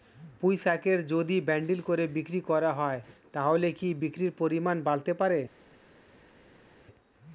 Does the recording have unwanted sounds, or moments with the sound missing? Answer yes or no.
no